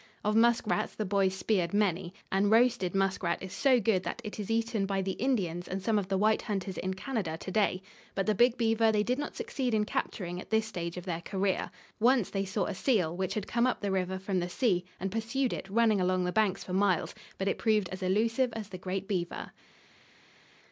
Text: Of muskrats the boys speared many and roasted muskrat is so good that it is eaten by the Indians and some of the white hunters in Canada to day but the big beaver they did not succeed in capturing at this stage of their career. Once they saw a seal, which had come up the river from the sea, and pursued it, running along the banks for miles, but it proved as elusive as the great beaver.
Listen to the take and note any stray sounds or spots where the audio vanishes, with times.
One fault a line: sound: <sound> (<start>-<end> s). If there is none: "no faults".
no faults